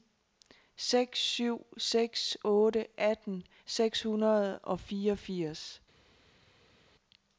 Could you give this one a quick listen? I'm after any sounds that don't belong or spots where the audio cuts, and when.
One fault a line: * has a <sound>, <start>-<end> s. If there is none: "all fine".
all fine